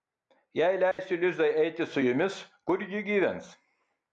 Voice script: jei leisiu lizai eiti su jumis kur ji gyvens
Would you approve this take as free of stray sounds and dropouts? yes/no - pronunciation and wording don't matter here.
no